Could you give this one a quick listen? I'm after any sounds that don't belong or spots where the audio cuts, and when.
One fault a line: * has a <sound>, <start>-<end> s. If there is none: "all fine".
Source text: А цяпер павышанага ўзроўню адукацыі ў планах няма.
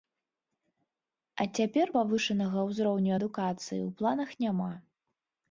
all fine